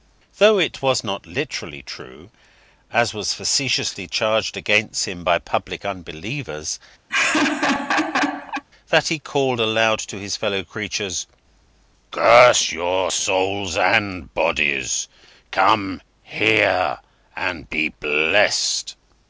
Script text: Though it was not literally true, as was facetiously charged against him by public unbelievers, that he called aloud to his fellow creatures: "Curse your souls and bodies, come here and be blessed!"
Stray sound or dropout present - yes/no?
yes